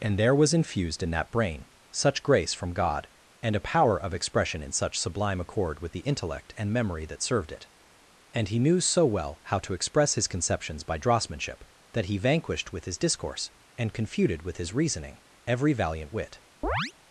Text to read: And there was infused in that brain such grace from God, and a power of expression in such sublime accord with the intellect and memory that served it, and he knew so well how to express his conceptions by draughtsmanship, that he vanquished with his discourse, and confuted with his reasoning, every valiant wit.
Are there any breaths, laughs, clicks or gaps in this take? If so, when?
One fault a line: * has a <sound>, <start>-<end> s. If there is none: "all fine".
* has a chirp, 16.6-16.9 s